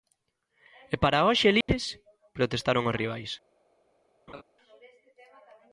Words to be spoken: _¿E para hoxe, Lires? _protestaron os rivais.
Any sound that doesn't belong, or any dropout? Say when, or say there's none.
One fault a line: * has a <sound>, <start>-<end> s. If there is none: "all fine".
* has a dropout, 1.6-1.7 s
* has a laugh, 4.3-4.4 s